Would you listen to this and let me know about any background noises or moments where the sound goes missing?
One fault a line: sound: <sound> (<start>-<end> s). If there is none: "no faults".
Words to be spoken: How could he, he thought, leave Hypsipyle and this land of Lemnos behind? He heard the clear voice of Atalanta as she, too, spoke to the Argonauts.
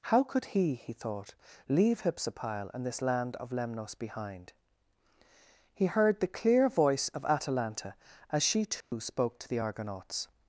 sound: dropout (8.8-8.9 s)